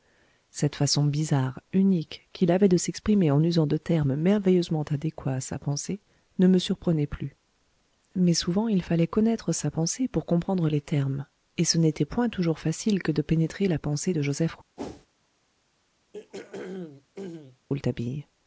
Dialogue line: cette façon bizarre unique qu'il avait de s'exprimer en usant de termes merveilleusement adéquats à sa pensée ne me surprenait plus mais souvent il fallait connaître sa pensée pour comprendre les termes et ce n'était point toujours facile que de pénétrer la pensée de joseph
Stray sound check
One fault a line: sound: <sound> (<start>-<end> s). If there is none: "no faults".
sound: whoosh (14.8-15.1 s)
sound: throat clearing (16.1-17.7 s)